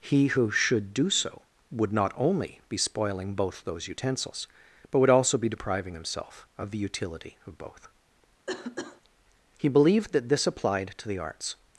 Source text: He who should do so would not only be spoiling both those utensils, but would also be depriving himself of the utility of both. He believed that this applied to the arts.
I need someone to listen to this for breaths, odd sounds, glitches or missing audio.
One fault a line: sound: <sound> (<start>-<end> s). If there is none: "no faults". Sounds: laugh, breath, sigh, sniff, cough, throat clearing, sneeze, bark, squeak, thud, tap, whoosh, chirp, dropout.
sound: cough (8.5-9.0 s)